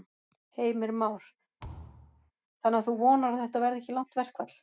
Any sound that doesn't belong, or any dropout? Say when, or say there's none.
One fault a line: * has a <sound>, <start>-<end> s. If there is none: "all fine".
* has a thud, 1.6-2.3 s